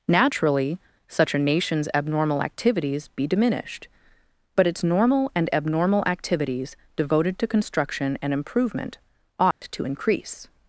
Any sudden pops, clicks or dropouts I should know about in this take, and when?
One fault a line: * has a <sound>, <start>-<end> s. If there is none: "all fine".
* has a dropout, 9.5-9.6 s